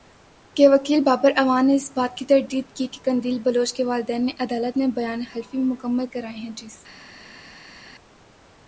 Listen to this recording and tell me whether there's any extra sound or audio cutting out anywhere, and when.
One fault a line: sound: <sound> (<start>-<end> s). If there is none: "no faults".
no faults